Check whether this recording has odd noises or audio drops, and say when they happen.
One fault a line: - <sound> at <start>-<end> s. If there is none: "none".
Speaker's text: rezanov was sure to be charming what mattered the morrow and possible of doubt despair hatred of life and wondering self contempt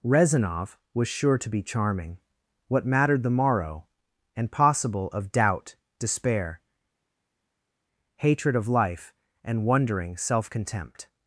none